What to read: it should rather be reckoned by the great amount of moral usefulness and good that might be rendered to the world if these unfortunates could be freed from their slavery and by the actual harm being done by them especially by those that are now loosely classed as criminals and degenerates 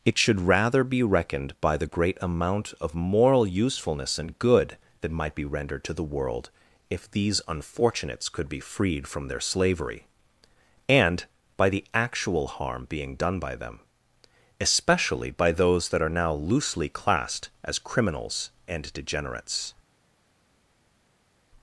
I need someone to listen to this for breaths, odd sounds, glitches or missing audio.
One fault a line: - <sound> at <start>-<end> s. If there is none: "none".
none